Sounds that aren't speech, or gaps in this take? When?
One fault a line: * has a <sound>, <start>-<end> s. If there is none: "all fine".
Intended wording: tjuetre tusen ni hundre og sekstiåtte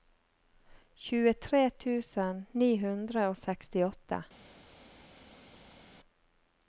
all fine